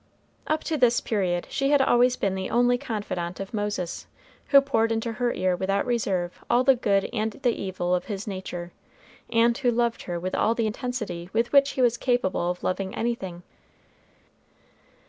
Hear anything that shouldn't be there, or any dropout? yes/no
no